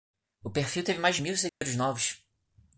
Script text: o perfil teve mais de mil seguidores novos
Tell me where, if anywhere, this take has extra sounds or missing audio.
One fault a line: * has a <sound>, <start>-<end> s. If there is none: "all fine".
* has a dropout, 1.5-1.6 s